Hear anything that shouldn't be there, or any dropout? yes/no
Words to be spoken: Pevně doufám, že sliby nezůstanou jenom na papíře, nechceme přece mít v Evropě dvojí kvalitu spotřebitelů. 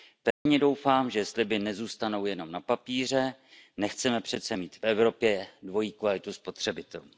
yes